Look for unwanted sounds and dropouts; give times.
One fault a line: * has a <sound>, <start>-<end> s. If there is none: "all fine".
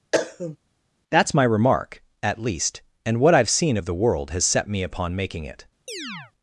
* has a cough, 0.1-0.6 s
* has a chirp, 5.9-6.3 s